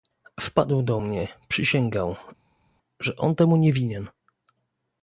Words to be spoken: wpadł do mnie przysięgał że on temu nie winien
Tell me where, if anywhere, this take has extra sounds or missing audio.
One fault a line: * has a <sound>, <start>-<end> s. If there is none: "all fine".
all fine